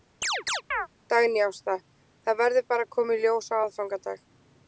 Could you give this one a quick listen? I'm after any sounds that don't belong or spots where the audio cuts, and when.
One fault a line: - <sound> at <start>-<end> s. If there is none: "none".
- chirp at 0.2-0.9 s